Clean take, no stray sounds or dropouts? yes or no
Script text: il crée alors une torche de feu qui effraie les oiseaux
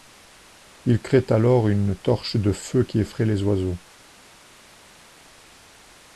yes